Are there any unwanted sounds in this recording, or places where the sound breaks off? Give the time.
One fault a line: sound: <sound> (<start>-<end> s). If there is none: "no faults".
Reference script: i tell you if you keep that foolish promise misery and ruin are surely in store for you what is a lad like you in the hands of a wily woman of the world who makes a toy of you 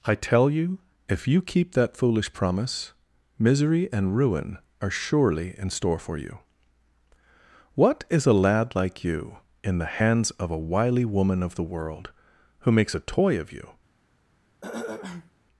sound: throat clearing (14.6-15.3 s)